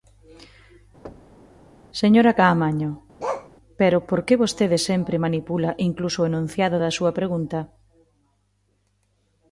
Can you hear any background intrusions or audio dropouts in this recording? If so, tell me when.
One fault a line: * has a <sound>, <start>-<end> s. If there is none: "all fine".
* has a thud, 1.0-1.5 s
* has a bark, 3.2-3.5 s